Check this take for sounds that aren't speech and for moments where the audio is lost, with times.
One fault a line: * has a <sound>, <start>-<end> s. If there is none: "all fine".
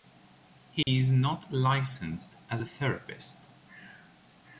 * has a dropout, 0.8-0.9 s